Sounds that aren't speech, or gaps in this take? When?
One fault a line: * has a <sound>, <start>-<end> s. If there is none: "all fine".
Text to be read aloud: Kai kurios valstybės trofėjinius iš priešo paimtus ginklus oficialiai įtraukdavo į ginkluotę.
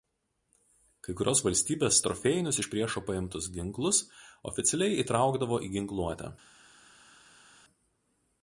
all fine